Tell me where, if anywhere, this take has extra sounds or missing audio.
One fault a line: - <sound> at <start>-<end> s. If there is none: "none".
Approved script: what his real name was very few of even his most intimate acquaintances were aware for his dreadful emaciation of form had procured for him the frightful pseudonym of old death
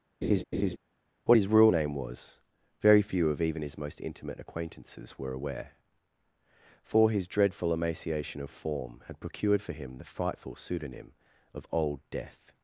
- laugh at 0.2-0.8 s